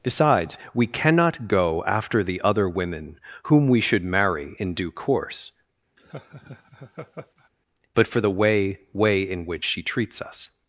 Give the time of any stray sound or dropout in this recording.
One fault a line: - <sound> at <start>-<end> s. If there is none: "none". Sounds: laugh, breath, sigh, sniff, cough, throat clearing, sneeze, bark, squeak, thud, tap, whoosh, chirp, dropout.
- laugh at 6.0-7.5 s